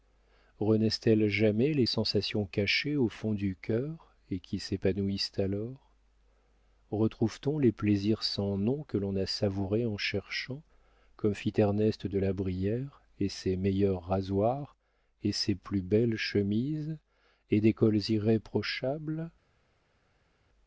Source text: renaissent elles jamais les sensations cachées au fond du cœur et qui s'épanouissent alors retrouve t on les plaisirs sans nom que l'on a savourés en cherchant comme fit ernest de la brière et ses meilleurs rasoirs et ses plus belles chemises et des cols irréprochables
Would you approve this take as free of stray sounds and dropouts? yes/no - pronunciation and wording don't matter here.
yes